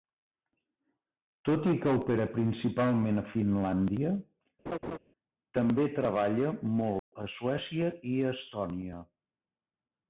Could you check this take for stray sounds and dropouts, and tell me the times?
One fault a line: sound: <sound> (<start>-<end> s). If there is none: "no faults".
sound: laugh (4.7-5.0 s)
sound: dropout (7.0-7.1 s)